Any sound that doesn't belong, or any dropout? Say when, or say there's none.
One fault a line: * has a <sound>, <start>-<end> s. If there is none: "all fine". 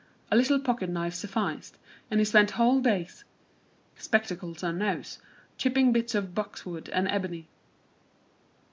all fine